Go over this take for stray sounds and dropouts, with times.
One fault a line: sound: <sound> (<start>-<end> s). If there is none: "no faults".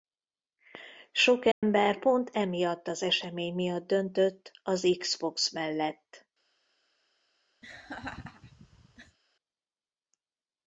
sound: dropout (1.5-1.6 s)
sound: laugh (7.6-9.2 s)